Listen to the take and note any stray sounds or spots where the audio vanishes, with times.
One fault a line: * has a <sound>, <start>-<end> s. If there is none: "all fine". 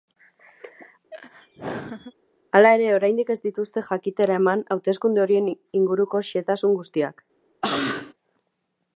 * has a laugh, 1.1-2.1 s
* has a cough, 7.6-8.1 s